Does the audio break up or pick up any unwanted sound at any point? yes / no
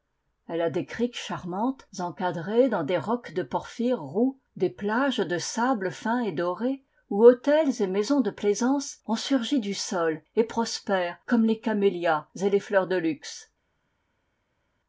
no